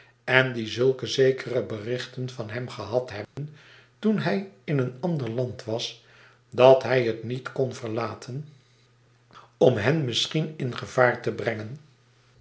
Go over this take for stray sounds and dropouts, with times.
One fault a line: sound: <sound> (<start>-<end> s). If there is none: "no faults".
sound: dropout (3.2-3.4 s)